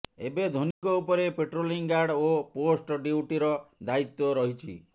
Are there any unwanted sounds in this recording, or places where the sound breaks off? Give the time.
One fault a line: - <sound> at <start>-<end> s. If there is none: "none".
- dropout at 0.7-0.8 s